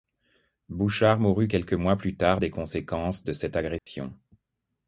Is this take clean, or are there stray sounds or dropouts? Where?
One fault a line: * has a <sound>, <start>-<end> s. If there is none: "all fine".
* has a dropout, 3.8-3.9 s